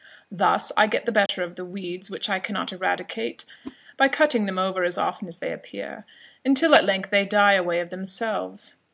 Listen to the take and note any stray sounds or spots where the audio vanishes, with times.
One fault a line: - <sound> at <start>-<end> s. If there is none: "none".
- dropout at 1.3-1.3 s
- whoosh at 3.6-3.8 s